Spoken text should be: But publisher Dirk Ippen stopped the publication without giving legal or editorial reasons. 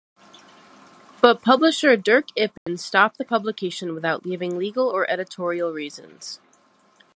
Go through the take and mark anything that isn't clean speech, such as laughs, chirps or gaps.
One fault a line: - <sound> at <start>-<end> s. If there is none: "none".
- dropout at 2.6-2.7 s